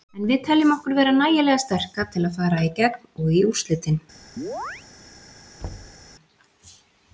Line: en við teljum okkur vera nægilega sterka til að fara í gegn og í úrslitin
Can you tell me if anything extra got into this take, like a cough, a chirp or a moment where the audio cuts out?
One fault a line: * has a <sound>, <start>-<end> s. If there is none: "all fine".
* has a chirp, 4.4-4.9 s
* has a thud, 5.6-6.1 s